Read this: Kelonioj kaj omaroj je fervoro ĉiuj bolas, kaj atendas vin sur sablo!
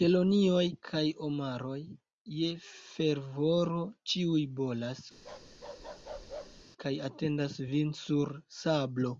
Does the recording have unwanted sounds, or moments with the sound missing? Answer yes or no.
yes